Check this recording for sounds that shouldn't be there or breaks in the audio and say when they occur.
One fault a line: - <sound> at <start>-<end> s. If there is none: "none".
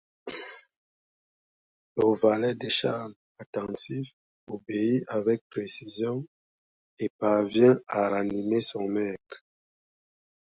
none